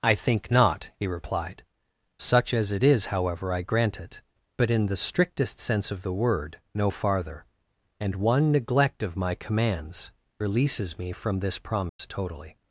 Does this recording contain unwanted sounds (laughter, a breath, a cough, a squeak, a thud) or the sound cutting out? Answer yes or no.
yes